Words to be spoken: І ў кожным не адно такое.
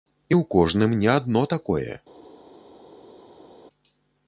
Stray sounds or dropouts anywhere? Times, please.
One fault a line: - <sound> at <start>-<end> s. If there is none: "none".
none